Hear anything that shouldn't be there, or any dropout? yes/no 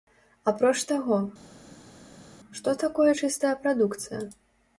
no